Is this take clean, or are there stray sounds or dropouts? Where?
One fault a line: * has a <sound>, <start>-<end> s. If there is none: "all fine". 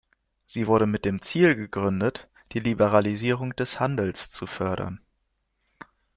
all fine